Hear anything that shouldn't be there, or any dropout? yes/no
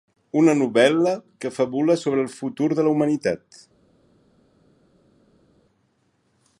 no